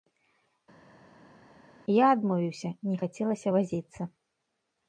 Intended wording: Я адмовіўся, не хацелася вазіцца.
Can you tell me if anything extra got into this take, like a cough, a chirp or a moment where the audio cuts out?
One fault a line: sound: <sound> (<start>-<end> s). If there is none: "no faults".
no faults